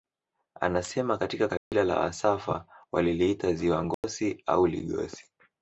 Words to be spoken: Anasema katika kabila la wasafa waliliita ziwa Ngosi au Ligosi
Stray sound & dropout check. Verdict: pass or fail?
fail